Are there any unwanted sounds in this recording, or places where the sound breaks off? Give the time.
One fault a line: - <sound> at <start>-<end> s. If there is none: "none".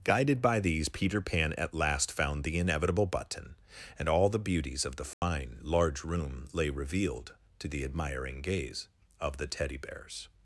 - dropout at 5.1-5.2 s